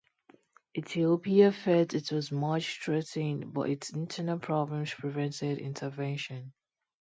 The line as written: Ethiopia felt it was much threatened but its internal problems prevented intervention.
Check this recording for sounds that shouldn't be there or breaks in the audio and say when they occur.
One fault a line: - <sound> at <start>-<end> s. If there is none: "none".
none